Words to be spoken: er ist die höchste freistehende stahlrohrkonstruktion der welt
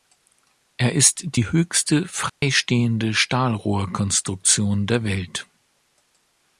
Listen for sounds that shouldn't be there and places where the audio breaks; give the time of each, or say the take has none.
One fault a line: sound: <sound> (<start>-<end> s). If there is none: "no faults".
sound: dropout (2.3-2.4 s)